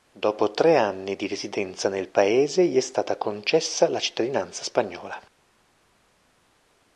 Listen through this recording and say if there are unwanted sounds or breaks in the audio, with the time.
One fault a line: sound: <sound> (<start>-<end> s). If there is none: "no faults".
no faults